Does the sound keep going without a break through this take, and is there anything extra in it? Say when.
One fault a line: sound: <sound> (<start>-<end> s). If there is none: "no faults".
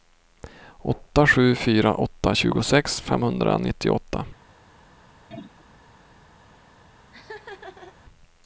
sound: throat clearing (5.3-5.7 s)
sound: laugh (7.1-7.9 s)